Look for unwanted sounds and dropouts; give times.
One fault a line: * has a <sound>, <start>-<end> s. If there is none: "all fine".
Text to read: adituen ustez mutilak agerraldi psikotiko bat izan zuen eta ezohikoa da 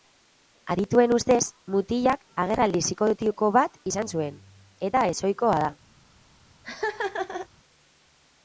* has a laugh, 6.6-7.5 s